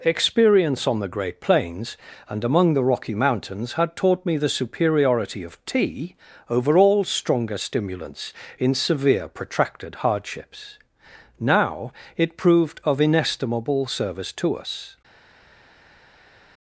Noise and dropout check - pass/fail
pass